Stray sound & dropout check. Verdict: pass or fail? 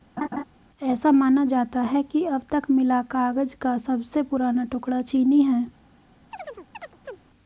fail